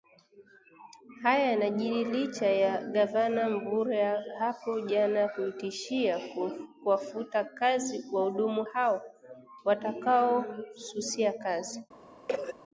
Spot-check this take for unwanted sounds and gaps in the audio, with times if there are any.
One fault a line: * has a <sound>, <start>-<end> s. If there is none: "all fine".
* has a cough, 12.3-12.5 s